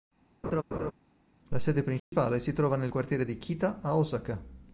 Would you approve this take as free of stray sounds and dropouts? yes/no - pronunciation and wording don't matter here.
no